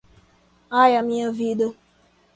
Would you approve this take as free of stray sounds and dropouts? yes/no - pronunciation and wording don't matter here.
yes